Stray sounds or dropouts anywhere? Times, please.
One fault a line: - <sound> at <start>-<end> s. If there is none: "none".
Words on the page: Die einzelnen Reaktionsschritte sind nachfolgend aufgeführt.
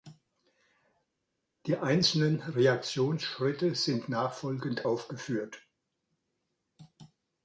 none